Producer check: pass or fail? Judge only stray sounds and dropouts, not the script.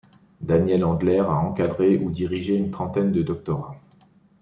pass